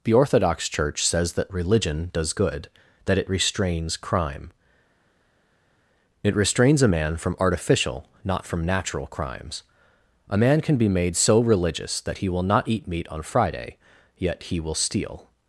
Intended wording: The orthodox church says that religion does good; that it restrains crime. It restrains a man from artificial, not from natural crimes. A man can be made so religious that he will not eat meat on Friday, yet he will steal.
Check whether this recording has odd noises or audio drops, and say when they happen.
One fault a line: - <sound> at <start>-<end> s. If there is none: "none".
none